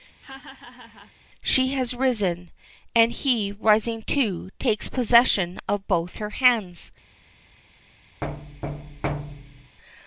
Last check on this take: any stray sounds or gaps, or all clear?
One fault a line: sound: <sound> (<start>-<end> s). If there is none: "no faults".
sound: laugh (0.2-1.1 s)
sound: thud (8.2-9.8 s)